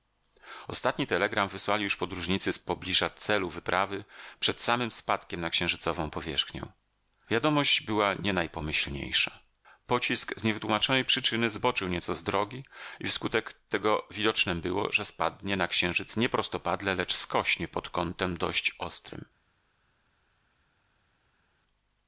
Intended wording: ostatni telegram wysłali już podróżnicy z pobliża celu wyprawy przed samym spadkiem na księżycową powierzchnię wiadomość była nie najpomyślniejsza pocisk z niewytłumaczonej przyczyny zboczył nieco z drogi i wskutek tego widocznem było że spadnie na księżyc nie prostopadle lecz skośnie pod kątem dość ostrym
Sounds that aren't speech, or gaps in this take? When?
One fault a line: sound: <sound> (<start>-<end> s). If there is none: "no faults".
no faults